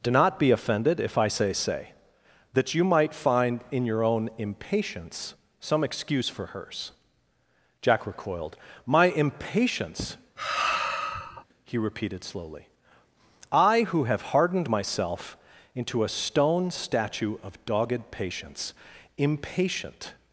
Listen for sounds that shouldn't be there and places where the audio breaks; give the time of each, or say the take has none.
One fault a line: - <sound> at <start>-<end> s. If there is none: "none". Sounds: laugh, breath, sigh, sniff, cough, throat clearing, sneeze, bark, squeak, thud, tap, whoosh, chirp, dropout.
- sigh at 10.4-11.4 s